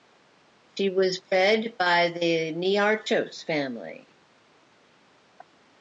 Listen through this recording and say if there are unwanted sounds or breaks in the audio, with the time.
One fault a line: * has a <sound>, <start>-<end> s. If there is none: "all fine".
all fine